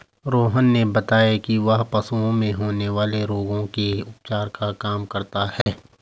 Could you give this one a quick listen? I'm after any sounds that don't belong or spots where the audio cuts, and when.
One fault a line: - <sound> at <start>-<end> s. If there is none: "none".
- dropout at 5.6-5.7 s